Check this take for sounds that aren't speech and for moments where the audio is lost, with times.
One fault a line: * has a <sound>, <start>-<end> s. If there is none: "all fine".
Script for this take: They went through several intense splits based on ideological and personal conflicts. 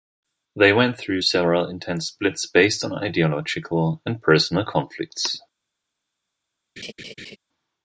* has a laugh, 6.8-7.4 s